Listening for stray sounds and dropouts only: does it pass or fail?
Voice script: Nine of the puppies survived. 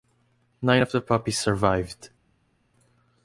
pass